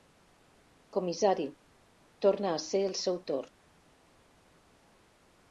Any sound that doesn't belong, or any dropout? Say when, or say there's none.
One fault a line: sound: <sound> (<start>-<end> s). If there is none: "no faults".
no faults